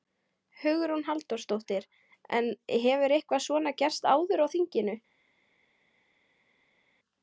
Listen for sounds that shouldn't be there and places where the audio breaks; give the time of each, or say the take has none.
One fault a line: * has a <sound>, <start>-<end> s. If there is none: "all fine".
all fine